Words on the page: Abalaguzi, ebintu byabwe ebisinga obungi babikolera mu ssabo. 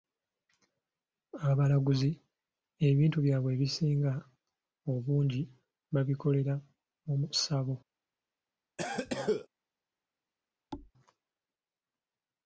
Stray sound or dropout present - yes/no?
yes